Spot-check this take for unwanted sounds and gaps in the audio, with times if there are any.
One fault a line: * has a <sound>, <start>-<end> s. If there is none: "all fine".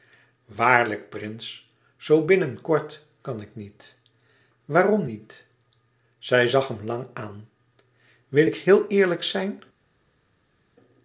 all fine